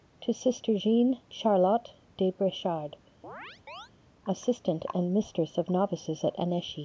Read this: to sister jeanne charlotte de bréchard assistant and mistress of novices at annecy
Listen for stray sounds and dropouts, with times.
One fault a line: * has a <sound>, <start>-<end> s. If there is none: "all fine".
* has a chirp, 3.2-3.9 s